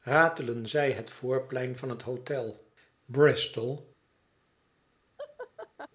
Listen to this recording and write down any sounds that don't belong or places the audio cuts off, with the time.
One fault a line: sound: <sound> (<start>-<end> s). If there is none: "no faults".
sound: laugh (5.2-5.9 s)